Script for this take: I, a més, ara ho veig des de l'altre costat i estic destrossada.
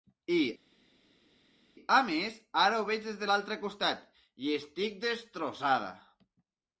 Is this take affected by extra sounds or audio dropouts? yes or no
no